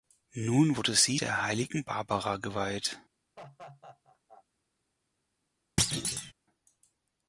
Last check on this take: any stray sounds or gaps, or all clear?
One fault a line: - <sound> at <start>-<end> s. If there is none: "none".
- laugh at 3.4-4.4 s
- thud at 5.8-6.3 s